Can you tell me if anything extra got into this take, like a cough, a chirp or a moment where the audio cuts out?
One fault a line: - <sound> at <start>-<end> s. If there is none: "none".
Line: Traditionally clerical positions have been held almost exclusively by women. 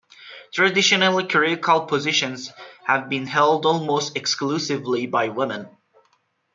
none